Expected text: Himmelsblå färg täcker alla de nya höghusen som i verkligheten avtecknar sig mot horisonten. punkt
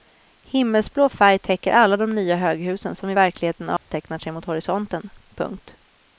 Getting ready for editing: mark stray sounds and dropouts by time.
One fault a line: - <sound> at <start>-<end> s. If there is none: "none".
- dropout at 3.8-3.9 s